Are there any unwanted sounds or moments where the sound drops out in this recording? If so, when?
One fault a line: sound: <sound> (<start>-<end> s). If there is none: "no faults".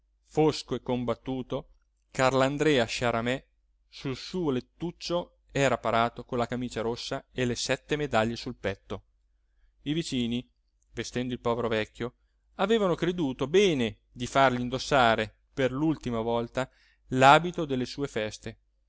no faults